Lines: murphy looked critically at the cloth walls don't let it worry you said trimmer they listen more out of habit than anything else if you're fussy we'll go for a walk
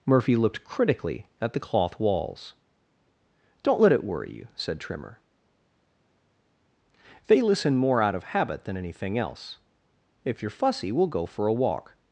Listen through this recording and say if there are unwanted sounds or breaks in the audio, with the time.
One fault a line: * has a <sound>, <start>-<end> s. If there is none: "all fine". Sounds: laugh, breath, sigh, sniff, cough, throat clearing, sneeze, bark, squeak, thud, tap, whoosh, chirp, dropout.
all fine